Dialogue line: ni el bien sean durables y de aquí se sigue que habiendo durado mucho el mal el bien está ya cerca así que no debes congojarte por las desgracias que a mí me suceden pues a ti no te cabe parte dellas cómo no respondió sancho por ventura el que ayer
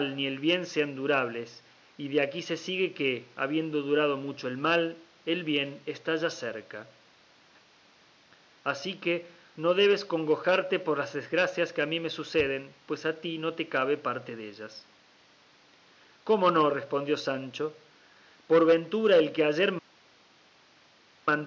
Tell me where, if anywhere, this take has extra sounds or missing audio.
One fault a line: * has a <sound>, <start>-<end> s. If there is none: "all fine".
all fine